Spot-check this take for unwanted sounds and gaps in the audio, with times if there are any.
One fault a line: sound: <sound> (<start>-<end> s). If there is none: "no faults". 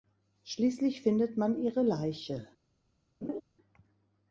sound: laugh (3.2-3.4 s)